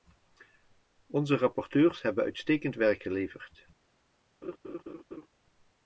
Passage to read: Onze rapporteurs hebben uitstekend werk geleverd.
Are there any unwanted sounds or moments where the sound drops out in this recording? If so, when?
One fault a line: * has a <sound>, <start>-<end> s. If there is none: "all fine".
* has a laugh, 4.4-5.3 s